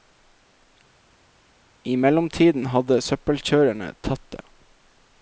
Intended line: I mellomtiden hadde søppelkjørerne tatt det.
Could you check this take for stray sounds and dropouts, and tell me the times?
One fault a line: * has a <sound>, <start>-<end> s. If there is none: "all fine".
all fine